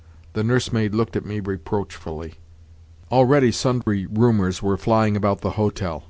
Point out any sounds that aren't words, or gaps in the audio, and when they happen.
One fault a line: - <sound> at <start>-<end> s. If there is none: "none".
- dropout at 3.8-3.9 s